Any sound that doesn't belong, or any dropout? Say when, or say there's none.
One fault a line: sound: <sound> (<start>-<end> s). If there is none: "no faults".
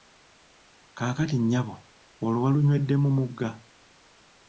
no faults